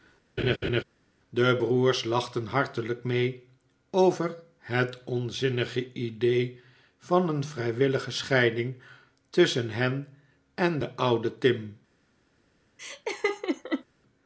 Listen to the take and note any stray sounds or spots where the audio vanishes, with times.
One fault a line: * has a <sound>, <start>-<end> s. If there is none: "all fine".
* has a laugh, 0.4-0.8 s
* has a laugh, 12.8-13.8 s